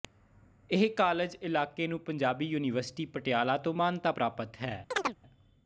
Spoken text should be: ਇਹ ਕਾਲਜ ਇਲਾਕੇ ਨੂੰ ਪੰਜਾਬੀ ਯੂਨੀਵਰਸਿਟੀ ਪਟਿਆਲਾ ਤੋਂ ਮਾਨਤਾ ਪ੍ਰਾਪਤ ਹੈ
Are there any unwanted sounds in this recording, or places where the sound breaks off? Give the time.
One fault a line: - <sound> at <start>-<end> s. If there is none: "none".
- chirp at 4.9-5.2 s